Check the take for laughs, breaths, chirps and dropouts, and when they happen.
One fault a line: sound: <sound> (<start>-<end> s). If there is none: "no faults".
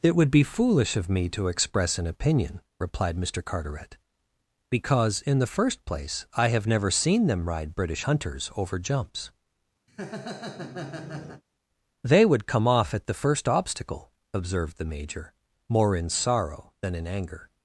sound: laugh (9.9-11.4 s)